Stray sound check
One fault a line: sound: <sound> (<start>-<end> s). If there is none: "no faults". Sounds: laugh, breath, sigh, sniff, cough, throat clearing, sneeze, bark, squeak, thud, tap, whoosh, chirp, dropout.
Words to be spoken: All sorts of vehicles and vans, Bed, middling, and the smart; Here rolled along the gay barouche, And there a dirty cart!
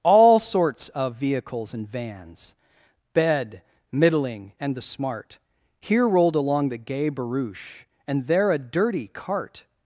no faults